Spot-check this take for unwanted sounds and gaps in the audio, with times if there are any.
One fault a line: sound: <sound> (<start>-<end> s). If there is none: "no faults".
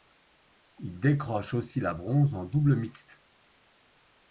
no faults